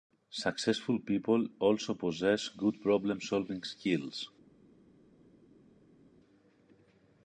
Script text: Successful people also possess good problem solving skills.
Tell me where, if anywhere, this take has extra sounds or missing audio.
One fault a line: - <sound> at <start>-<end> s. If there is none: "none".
none